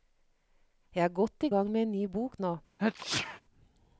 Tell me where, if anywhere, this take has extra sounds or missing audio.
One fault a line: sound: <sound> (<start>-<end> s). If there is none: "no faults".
sound: sneeze (2.8-3.4 s)